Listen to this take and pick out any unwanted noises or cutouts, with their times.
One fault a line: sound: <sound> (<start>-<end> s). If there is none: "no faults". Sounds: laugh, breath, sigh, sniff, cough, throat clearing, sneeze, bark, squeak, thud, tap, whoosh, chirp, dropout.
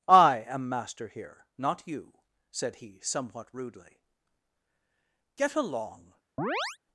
sound: chirp (6.4-6.8 s)